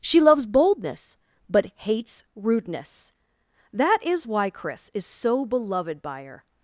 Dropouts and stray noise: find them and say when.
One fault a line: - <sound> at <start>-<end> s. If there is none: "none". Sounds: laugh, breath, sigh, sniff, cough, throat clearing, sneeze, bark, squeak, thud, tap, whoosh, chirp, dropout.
none